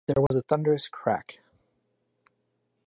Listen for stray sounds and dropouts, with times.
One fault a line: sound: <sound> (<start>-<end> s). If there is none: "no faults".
sound: dropout (0.3-0.3 s)